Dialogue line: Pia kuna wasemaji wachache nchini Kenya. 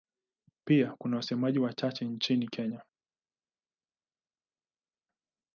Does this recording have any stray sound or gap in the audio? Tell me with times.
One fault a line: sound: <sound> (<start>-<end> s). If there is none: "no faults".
no faults